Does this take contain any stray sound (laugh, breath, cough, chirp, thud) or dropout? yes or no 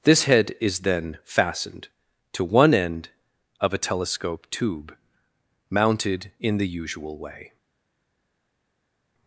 no